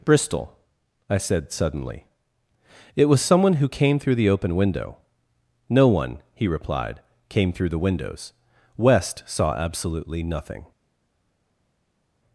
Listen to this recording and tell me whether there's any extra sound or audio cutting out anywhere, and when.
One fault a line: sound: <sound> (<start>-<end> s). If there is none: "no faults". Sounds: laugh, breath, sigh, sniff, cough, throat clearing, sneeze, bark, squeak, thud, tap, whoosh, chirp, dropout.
no faults